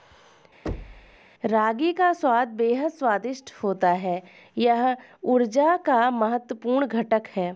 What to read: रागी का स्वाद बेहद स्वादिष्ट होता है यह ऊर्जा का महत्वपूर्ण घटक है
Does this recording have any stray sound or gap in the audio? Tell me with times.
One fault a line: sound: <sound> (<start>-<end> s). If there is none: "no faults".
sound: thud (0.7-1.2 s)